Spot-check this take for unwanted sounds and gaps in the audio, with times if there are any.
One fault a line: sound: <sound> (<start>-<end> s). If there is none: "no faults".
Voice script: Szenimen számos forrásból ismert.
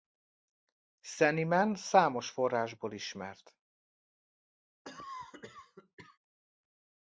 sound: cough (4.8-6.2 s)